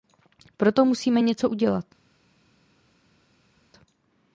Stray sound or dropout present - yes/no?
no